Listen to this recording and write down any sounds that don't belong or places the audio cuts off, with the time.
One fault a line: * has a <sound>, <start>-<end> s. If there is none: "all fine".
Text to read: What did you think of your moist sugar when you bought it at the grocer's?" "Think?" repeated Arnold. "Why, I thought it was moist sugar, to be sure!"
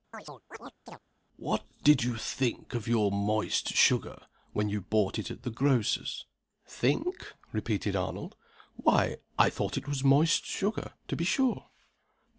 * has a chirp, 0.1-1.0 s